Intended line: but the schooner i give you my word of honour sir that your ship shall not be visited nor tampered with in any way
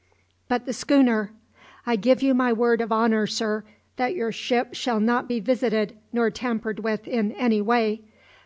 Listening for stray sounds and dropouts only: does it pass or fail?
pass